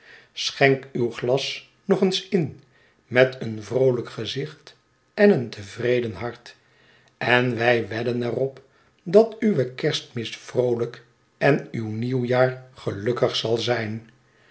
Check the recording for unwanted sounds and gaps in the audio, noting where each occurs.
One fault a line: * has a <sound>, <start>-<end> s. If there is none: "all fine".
all fine